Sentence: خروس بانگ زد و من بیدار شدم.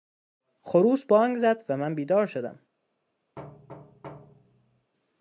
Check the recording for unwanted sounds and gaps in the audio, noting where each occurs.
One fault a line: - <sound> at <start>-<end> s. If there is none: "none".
- thud at 3.4-4.9 s